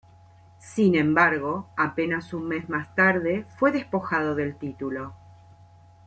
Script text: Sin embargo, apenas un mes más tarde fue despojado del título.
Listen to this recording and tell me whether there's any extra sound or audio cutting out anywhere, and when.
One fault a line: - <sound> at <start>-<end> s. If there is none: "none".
none